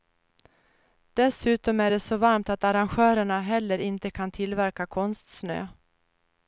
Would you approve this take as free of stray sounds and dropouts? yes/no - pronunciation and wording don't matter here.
yes